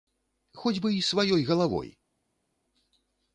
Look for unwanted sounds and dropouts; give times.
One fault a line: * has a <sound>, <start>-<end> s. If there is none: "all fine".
all fine